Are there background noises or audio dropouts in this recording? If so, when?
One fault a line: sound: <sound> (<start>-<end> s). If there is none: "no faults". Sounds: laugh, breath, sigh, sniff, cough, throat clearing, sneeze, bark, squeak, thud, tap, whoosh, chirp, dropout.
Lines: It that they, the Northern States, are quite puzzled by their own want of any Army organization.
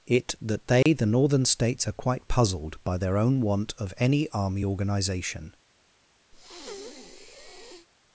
sound: dropout (0.8-0.9 s)
sound: breath (6.3-7.9 s)